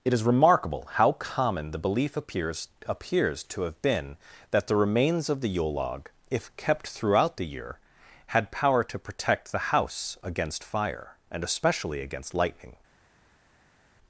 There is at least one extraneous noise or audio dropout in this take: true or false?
false